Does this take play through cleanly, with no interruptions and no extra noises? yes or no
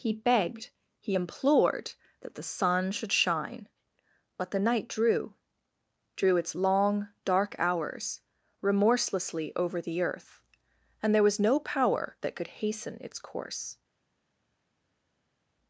yes